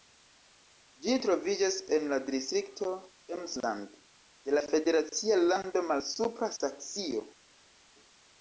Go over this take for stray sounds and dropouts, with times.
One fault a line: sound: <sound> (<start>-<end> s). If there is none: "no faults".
no faults